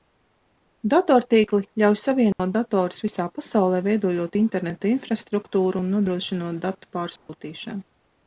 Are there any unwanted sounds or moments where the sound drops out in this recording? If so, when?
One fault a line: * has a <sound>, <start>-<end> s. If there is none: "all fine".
* has a dropout, 2.3-2.4 s
* has a dropout, 7.2-7.3 s